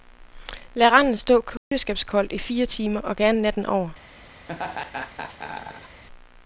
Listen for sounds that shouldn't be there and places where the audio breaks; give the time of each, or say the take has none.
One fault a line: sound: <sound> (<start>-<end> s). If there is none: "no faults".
sound: dropout (1.6-1.7 s)
sound: laugh (4.5-6.0 s)